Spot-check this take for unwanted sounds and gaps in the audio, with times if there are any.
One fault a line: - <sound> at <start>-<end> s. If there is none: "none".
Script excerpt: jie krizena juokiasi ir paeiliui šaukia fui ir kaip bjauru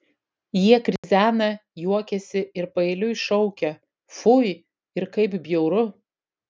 - dropout at 1.0-1.0 s